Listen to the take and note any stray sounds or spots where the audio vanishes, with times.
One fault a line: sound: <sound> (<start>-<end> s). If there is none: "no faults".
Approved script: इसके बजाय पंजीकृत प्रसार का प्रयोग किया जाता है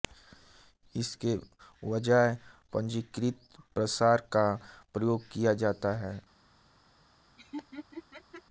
sound: laugh (7.4-8.4 s)